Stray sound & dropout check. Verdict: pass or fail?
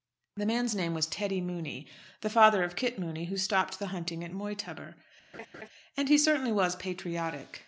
fail